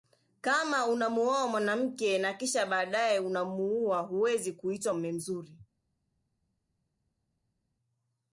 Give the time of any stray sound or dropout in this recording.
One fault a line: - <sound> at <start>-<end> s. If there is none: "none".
none